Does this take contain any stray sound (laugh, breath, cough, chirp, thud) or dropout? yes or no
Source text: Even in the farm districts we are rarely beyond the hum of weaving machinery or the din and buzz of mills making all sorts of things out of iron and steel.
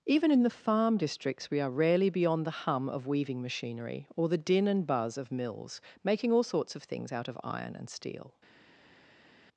no